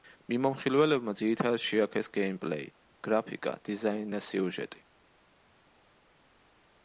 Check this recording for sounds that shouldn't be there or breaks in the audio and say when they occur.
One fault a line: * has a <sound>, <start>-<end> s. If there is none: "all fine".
all fine